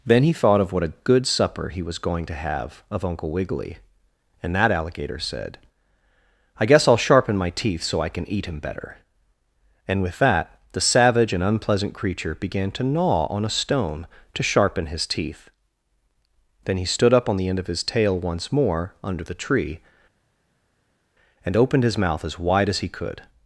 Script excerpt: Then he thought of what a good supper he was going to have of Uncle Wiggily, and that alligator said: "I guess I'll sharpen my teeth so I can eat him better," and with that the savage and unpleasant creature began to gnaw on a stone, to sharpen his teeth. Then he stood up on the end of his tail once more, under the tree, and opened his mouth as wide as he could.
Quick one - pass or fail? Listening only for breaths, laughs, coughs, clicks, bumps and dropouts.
pass